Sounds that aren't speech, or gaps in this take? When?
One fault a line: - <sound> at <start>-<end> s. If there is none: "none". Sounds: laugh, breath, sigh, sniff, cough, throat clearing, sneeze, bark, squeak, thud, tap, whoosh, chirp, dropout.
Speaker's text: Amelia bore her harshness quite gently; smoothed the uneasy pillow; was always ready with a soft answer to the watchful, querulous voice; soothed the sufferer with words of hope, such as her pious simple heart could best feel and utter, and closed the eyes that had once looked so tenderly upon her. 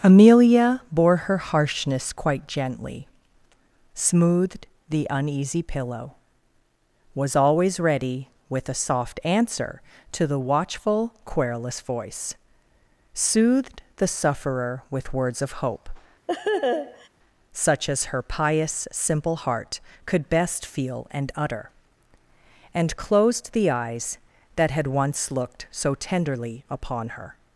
- laugh at 16.3-17.1 s